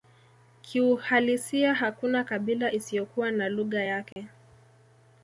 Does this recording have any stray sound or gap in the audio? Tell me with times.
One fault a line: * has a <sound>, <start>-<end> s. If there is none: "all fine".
* has a dropout, 4.1-4.2 s